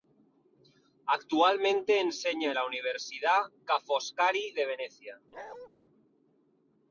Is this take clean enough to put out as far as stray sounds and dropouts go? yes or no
no